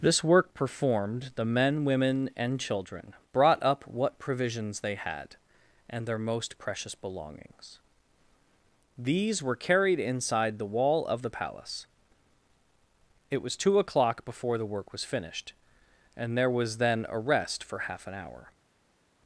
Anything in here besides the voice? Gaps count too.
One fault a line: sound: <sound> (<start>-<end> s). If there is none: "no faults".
no faults